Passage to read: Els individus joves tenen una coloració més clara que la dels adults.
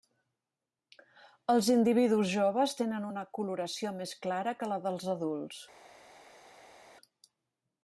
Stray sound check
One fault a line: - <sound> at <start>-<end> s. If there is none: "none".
none